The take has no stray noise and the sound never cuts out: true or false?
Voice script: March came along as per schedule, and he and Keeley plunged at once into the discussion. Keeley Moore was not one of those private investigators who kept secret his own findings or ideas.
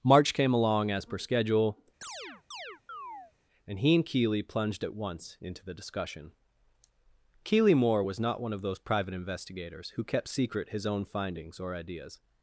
false